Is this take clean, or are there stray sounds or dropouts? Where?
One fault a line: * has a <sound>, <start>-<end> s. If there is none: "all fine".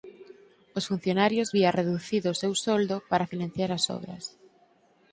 all fine